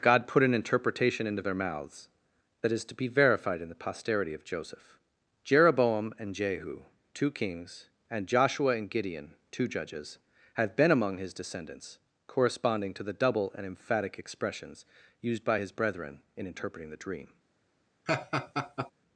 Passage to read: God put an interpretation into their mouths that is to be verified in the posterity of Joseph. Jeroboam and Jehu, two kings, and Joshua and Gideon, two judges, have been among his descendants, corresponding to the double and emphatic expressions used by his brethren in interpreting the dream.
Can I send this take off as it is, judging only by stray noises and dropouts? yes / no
no